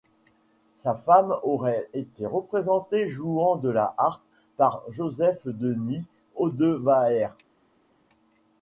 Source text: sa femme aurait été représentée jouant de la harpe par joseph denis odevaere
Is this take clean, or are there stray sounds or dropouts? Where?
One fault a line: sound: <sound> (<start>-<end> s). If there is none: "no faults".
no faults